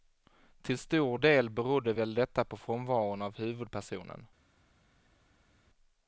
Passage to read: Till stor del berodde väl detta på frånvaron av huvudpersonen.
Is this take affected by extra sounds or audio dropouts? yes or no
no